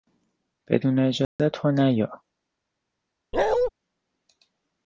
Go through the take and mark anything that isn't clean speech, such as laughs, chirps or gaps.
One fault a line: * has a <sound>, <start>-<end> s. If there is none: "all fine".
* has a dropout, 1.2-1.4 s
* has a bark, 3.3-3.7 s